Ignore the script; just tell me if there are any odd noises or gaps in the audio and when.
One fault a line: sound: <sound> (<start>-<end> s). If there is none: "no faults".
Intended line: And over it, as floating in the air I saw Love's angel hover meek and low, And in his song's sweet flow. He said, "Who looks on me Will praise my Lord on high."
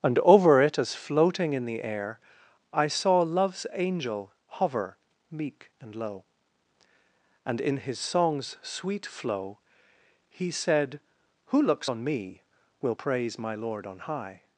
no faults